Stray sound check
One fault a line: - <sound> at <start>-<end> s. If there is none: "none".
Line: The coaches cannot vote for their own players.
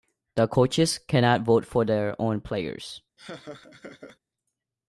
- laugh at 3.2-4.2 s